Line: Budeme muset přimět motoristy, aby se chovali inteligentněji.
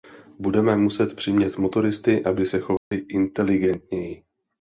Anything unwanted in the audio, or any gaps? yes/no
yes